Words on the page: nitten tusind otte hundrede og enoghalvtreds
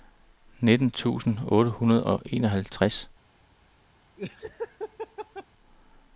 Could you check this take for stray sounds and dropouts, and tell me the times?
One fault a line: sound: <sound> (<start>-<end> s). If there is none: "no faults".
sound: laugh (4.2-5.5 s)